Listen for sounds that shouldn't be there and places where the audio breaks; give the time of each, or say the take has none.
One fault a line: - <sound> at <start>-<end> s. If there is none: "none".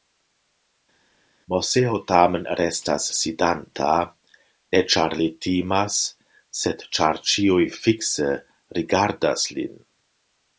none